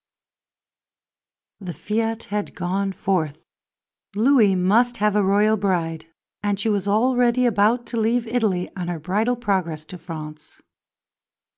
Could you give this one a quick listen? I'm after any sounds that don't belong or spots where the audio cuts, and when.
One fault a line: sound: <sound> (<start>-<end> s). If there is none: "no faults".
no faults